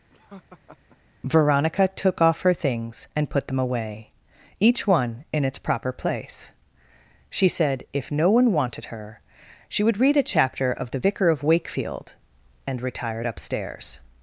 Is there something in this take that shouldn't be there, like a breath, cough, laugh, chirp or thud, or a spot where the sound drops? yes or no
yes